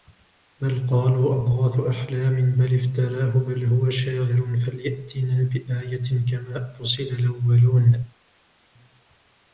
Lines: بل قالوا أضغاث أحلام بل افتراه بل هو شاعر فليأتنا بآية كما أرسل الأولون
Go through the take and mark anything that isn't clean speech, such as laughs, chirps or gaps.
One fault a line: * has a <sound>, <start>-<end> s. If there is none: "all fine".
all fine